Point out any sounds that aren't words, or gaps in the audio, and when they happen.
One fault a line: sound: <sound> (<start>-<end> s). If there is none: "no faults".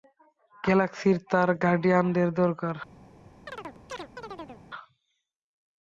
sound: chirp (3.5-4.6 s)